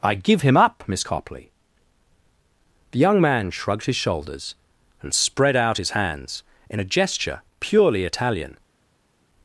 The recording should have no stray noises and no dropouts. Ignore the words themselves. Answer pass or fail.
pass